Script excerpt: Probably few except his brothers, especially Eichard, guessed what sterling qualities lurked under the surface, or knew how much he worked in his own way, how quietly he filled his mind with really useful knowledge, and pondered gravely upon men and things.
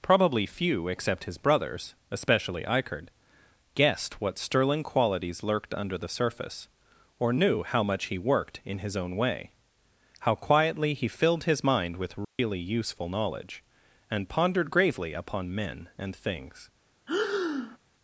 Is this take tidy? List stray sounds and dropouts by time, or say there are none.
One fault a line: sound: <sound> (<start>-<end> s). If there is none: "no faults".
sound: dropout (12.2-12.4 s)
sound: breath (17.1-17.8 s)